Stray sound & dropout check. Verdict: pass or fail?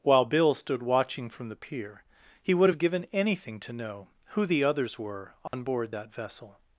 fail